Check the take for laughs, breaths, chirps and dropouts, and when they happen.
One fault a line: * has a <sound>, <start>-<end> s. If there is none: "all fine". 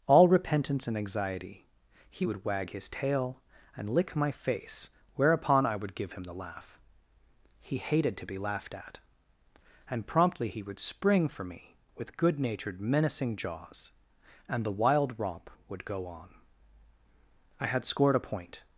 all fine